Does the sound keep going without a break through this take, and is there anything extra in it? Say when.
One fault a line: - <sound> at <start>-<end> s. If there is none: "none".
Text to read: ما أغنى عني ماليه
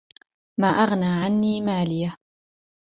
none